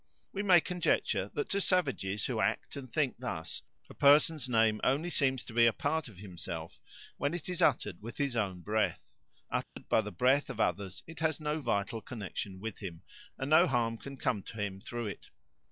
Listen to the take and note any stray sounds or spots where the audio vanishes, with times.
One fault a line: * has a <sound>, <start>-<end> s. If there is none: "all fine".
* has a dropout, 9.6-9.8 s